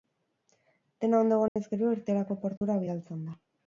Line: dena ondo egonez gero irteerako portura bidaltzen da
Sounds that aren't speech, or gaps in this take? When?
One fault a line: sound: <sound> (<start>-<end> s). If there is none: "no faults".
sound: dropout (1.5-1.6 s)
sound: dropout (2.6-2.6 s)